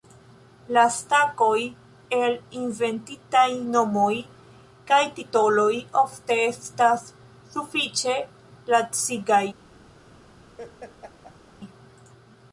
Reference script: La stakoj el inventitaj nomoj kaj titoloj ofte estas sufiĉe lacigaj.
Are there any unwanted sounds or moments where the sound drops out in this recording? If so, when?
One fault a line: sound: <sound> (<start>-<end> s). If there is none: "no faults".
sound: laugh (10.6-11.6 s)